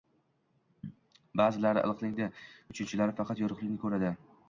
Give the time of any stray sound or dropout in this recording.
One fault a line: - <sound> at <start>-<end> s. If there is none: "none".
none